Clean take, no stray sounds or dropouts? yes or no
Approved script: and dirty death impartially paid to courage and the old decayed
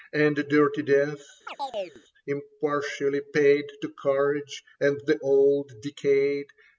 no